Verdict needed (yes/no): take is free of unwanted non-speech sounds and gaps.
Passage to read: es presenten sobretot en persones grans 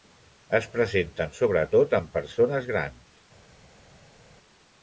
yes